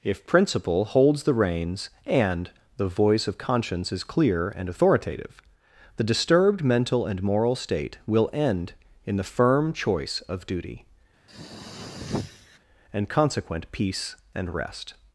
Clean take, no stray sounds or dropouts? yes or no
no